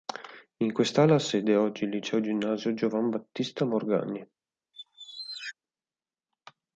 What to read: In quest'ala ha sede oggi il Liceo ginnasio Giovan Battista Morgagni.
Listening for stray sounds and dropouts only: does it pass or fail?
fail